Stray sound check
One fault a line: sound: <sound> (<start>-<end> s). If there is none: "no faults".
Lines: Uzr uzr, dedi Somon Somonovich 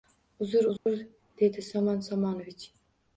sound: dropout (0.8-0.9 s)